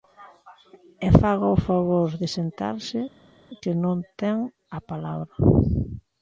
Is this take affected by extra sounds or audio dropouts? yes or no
no